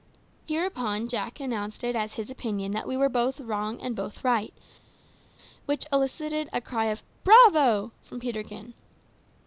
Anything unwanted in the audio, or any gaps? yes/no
no